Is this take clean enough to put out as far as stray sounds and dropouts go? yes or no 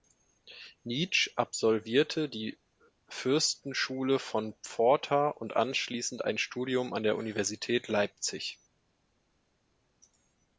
yes